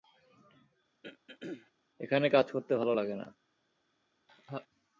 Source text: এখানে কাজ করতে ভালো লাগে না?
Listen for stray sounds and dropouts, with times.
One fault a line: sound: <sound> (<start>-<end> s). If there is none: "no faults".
sound: throat clearing (1.0-1.7 s)
sound: laugh (4.3-4.7 s)